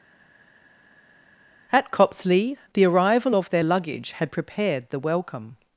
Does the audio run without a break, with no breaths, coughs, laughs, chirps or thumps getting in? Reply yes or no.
yes